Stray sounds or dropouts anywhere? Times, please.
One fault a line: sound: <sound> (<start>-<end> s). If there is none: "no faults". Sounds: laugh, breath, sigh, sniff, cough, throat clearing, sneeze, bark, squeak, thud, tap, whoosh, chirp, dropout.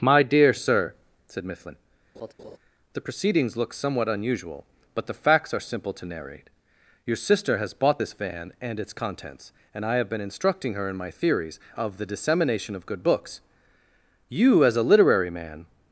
sound: laugh (2.1-2.6 s)